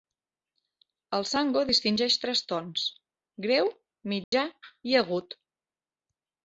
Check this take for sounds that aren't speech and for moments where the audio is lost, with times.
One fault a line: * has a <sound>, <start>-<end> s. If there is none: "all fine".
* has a dropout, 4.2-4.3 s